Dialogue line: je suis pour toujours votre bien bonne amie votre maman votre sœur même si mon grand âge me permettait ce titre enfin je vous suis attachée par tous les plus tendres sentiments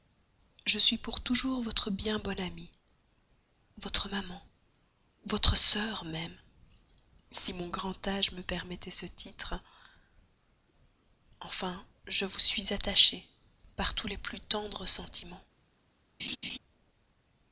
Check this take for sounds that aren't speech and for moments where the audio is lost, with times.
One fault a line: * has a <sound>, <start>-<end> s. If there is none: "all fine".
* has a laugh, 16.2-16.6 s